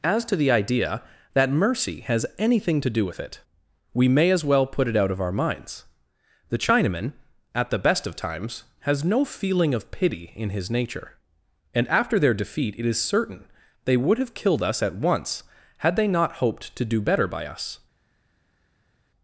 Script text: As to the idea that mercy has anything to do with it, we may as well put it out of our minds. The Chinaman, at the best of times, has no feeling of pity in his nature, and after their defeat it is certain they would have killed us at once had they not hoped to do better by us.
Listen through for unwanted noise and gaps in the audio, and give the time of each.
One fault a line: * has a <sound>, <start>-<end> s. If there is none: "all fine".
all fine